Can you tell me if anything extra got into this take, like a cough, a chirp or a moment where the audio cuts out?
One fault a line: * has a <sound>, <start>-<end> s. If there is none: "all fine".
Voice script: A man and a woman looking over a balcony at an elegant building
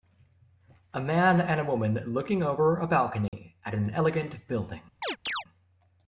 * has a dropout, 3.3-3.3 s
* has a chirp, 5.0-5.4 s